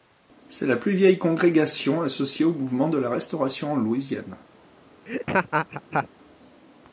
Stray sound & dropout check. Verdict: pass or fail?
fail